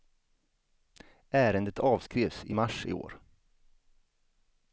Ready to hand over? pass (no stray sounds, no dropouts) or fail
pass